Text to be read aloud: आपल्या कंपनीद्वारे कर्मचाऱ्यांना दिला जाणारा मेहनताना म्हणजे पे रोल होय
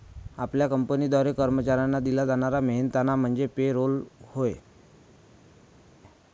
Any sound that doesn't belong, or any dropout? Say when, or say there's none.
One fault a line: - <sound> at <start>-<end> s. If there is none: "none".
none